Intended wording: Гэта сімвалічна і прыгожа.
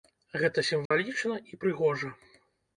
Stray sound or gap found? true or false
true